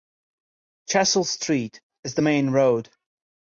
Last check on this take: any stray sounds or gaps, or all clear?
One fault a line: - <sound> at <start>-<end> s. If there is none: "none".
none